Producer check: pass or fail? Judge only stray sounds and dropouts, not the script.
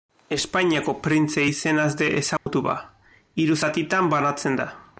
fail